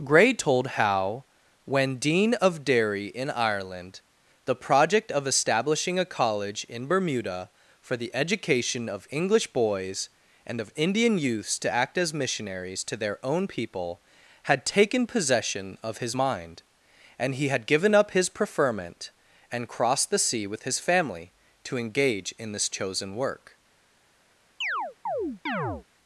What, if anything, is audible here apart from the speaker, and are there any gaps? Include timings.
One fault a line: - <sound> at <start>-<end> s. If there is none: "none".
- chirp at 24.6-25.8 s